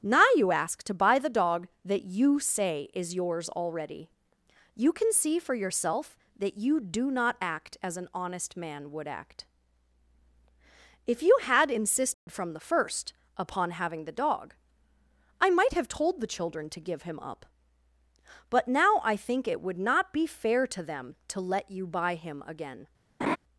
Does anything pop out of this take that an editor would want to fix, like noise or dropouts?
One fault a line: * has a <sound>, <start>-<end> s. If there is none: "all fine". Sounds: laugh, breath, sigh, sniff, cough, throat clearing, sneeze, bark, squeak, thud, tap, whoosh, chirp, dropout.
* has a dropout, 12.1-12.3 s
* has a laugh, 23.2-23.4 s